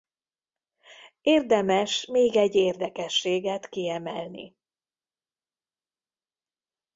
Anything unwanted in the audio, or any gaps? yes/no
no